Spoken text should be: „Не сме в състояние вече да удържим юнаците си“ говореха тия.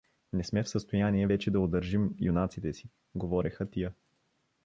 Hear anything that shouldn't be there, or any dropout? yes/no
no